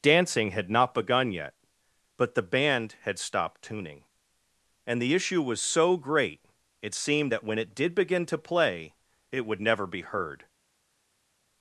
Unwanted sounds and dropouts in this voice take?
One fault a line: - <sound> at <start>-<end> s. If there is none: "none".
none